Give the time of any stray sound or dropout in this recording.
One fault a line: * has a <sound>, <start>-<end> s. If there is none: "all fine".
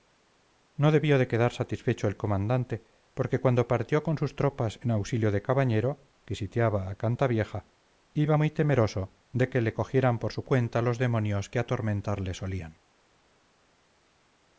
all fine